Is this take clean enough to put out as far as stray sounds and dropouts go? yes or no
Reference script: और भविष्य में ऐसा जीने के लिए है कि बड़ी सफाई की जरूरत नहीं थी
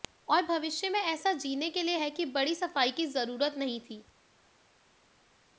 yes